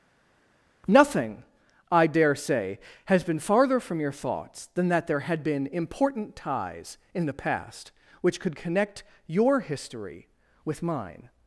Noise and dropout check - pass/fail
pass